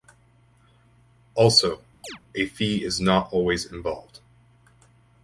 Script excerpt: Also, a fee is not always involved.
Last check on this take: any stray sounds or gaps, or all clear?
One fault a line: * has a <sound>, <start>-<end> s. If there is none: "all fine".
* has a chirp, 2.0-2.2 s